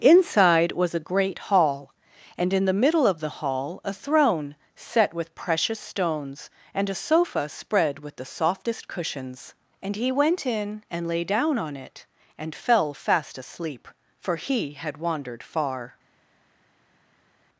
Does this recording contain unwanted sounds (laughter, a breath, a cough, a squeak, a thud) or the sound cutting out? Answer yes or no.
no